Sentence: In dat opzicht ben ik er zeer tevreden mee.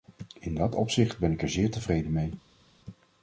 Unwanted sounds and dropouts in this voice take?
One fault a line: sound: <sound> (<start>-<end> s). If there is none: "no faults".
no faults